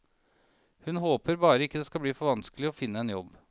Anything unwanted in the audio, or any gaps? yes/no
no